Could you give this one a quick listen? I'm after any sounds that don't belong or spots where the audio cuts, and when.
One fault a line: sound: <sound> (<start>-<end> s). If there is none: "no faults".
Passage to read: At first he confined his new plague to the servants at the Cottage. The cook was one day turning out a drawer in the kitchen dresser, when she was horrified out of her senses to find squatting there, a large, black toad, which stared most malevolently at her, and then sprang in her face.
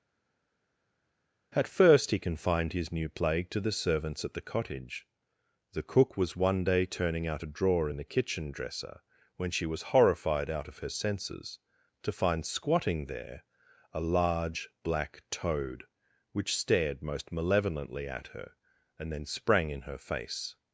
no faults